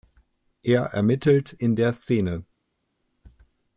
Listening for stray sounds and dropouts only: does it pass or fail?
pass